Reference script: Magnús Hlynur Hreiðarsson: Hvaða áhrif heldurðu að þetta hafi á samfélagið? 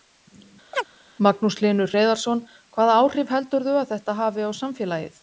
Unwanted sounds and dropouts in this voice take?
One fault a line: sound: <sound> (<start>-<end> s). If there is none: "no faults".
sound: chirp (0.7-0.9 s)